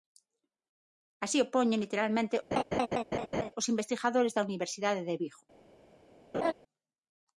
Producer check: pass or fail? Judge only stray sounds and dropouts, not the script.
fail